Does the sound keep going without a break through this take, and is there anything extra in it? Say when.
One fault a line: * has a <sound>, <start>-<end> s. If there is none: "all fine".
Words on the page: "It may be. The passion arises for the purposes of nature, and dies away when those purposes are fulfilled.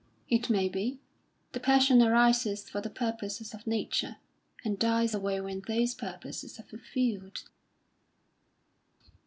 all fine